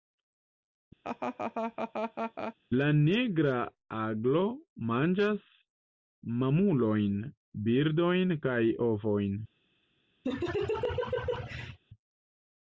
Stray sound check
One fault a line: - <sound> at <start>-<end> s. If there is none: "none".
- laugh at 1.0-2.5 s
- laugh at 10.2-11.8 s